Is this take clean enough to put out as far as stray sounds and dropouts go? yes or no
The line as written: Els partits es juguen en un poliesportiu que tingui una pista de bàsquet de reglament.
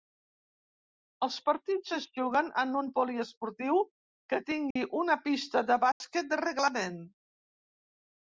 no